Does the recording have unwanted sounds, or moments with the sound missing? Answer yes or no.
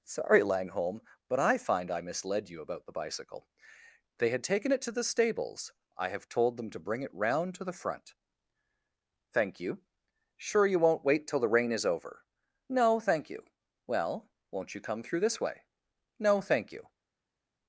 no